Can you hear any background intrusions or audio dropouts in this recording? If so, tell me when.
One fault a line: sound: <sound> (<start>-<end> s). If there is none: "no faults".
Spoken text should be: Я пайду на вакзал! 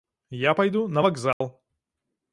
sound: dropout (1.3-1.4 s)